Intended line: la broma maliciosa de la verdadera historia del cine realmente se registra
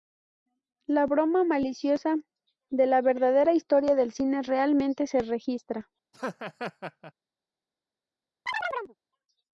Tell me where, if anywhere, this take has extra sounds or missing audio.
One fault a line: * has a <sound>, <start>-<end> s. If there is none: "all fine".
* has a laugh, 6.1-7.1 s
* has a chirp, 8.5-9.0 s